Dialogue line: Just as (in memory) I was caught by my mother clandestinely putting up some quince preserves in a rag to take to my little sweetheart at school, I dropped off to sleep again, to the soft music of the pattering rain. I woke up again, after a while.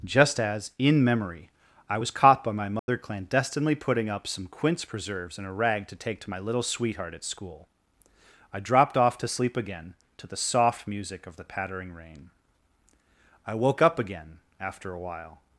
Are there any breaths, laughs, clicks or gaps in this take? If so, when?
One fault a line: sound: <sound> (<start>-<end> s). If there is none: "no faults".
sound: dropout (2.8-2.9 s)